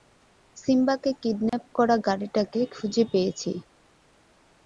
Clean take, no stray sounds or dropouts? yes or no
no